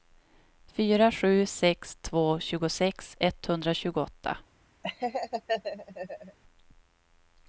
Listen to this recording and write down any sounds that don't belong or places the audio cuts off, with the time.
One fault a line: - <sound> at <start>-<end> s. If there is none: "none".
- laugh at 4.8-6.4 s